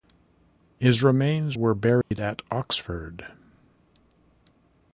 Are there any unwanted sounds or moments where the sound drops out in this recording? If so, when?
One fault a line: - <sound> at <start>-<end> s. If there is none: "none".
- dropout at 2.0-2.1 s